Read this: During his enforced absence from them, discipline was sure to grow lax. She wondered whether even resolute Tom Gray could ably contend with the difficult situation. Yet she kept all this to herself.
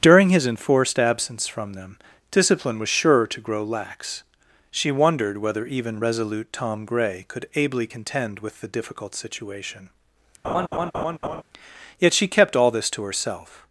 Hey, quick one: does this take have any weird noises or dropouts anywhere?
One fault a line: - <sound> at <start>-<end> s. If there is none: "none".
- laugh at 10.4-11.4 s